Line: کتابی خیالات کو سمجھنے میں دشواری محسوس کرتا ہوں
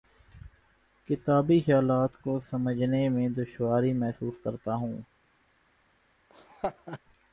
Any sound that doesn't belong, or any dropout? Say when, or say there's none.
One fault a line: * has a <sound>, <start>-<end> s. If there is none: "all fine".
* has a laugh, 6.3-7.0 s